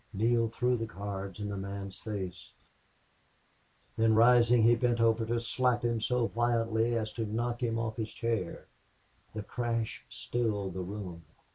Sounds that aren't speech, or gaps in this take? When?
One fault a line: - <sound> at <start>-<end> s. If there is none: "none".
none